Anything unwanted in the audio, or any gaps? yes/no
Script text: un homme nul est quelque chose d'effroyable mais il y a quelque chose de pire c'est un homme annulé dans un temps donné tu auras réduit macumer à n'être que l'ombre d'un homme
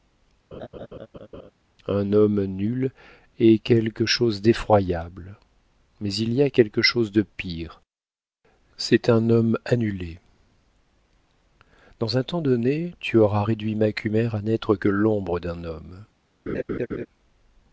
yes